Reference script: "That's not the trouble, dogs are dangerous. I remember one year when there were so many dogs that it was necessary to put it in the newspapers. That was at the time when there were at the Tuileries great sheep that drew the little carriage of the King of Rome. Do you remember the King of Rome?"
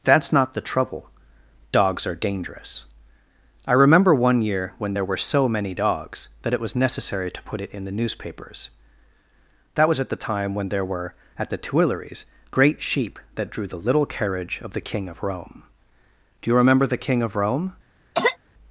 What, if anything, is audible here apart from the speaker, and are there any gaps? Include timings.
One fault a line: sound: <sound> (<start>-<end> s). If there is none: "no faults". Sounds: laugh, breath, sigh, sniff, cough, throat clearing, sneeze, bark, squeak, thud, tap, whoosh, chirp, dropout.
sound: cough (18.1-18.4 s)